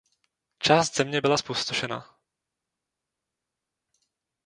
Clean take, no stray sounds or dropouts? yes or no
yes